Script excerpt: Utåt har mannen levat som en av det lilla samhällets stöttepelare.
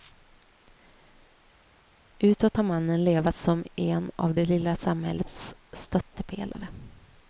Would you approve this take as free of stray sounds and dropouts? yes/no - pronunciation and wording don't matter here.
yes